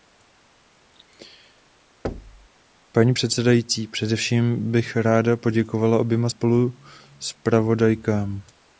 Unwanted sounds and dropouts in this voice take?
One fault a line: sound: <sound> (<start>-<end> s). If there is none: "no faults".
sound: thud (2.0-2.5 s)